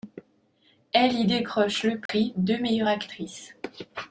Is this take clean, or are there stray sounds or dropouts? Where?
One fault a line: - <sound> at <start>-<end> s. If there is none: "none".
- dropout at 2.1-2.1 s